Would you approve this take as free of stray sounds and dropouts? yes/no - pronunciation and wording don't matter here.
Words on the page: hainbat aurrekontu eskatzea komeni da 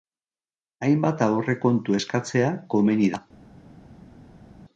yes